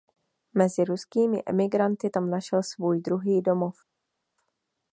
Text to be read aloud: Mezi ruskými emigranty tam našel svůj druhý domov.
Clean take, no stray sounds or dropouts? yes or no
yes